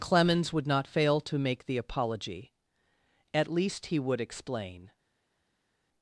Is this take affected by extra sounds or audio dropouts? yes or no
no